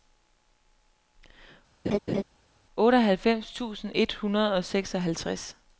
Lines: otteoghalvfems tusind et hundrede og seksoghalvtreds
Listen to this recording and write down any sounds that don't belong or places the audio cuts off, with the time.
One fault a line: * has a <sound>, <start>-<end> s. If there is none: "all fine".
* has a laugh, 1.8-2.2 s